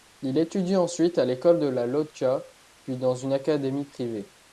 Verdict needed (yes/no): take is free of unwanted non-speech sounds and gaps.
yes